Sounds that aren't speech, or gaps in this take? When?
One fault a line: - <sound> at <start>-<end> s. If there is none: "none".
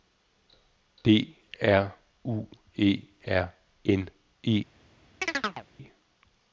- chirp at 5.2-5.7 s